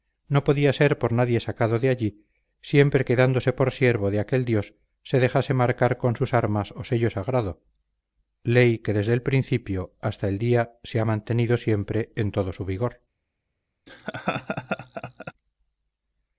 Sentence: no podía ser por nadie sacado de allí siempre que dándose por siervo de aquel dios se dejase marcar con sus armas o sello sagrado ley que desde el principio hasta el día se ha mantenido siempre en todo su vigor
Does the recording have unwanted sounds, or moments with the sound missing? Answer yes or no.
yes